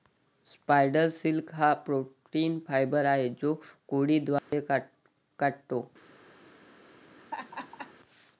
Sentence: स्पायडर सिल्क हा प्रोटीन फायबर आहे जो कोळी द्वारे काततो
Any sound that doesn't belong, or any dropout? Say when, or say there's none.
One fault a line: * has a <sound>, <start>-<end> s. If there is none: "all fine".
* has a dropout, 4.4-4.5 s
* has a laugh, 7.2-7.9 s